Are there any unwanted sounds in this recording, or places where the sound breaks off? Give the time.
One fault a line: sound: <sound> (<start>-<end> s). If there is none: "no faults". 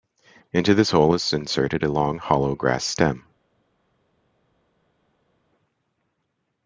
no faults